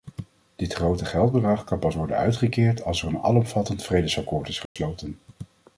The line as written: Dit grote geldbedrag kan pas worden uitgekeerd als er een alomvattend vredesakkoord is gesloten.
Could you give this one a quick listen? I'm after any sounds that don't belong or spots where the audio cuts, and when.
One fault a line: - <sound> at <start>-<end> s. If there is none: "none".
- dropout at 4.7-4.8 s